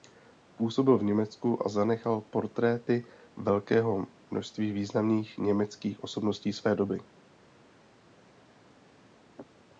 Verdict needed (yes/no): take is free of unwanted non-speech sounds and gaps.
yes